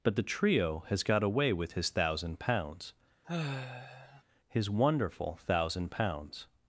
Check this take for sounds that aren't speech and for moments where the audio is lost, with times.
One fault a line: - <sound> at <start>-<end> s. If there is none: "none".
- sigh at 3.2-4.2 s